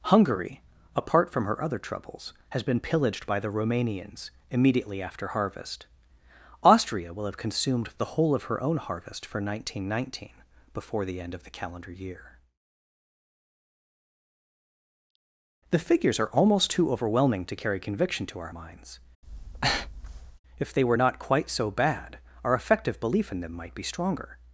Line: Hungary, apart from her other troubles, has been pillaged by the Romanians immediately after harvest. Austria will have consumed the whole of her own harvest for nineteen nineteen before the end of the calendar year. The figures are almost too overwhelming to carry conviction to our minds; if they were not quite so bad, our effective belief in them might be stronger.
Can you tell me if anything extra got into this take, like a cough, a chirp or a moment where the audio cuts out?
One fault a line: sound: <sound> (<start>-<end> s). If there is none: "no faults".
sound: breath (19.2-20.4 s)